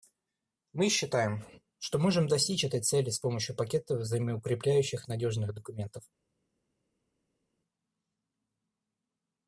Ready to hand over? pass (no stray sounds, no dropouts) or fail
pass